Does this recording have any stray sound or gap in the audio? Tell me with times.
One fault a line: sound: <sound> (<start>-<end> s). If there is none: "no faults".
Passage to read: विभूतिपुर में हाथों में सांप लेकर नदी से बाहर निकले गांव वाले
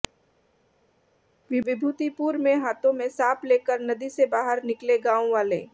no faults